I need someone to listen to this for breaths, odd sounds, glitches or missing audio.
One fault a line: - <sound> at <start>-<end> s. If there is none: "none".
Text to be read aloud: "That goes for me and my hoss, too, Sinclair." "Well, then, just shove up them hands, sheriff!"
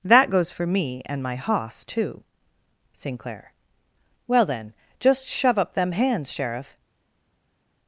none